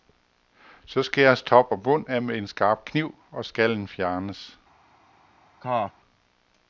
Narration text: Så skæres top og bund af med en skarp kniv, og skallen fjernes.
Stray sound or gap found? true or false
true